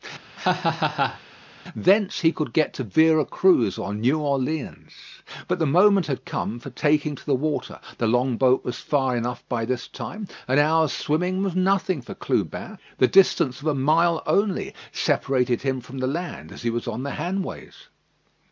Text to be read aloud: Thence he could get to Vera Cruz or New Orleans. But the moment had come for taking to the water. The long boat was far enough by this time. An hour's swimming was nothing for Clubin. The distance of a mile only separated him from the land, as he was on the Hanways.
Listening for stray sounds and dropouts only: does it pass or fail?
fail